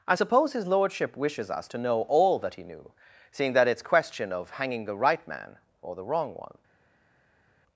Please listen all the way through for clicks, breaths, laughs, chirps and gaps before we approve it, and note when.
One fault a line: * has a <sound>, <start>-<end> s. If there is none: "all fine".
all fine